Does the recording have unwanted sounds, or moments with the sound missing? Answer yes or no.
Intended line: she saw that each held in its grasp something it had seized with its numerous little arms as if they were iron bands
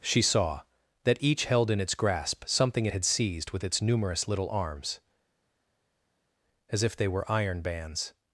no